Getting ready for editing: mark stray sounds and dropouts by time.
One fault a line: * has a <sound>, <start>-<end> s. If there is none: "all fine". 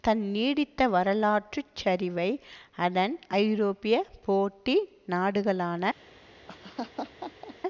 * has a laugh, 6.5-7.6 s